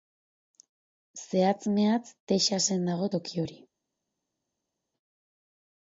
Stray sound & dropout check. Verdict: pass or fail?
pass